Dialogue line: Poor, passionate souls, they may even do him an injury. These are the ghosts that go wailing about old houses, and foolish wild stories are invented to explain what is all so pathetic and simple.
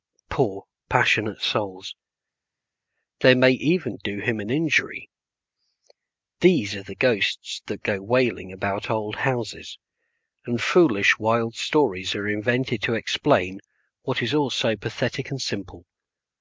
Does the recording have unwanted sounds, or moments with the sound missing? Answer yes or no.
no